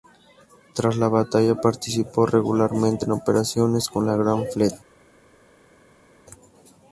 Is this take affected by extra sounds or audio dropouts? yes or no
no